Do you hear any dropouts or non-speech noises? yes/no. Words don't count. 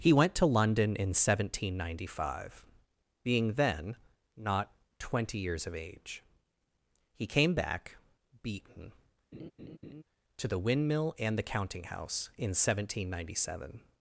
yes